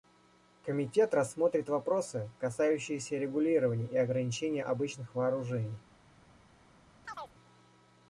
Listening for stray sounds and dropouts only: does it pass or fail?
fail